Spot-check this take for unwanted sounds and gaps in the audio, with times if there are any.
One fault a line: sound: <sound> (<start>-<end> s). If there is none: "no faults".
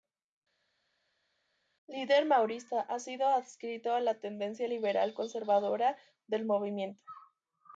no faults